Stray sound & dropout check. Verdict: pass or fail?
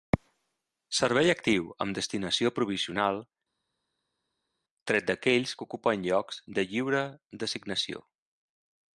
pass